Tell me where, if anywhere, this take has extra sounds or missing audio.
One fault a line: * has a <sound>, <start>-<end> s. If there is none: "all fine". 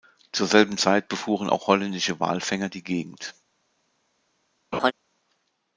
* has a laugh, 4.7-4.9 s